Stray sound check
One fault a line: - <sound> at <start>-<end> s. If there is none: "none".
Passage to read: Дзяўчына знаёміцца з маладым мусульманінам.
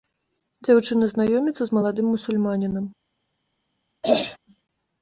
- throat clearing at 4.0-4.4 s